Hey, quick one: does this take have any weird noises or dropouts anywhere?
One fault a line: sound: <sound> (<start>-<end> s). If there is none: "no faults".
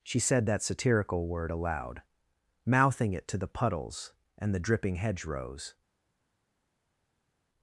no faults